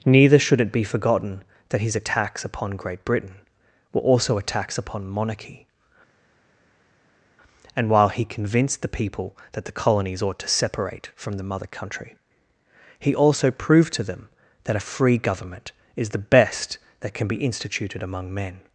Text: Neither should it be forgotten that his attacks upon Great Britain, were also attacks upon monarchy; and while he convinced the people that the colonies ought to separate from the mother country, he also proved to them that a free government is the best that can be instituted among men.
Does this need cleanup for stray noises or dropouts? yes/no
no